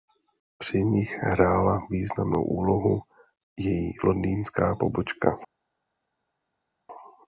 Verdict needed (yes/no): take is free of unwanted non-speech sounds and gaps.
yes